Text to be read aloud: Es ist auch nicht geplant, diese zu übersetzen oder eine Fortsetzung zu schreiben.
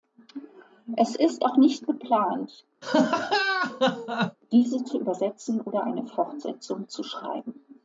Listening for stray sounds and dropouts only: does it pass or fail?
fail